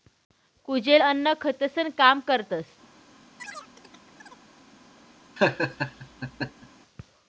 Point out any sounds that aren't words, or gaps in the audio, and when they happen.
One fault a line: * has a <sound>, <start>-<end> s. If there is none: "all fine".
* has a chirp, 3.4-4.4 s
* has a laugh, 5.4-6.7 s